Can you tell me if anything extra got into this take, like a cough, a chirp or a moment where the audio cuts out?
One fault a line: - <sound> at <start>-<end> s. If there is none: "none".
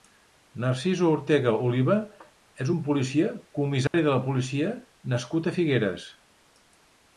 - dropout at 3.9-3.9 s